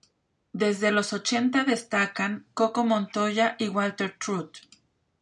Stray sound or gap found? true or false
false